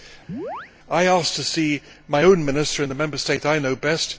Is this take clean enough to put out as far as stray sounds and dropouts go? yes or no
no